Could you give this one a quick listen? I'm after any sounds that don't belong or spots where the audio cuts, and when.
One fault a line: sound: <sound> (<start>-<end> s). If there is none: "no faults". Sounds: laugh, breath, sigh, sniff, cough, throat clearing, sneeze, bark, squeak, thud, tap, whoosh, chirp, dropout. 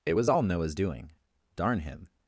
no faults